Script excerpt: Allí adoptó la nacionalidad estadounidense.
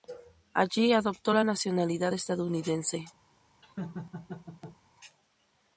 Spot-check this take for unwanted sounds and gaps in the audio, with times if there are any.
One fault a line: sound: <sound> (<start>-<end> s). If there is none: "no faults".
sound: laugh (3.6-4.8 s)